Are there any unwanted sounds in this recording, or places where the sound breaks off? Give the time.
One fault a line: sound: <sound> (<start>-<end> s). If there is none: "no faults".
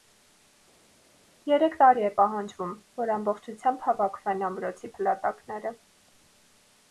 no faults